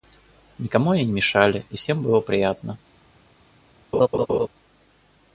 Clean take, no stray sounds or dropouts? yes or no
no